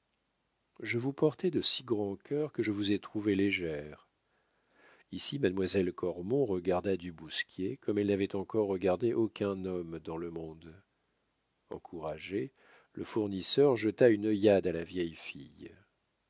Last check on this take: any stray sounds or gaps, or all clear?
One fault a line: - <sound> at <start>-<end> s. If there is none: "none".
none